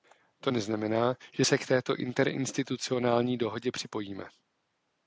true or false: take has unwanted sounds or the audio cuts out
false